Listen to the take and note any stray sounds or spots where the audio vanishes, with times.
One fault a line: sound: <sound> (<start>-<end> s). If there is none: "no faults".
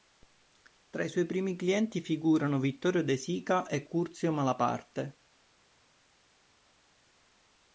no faults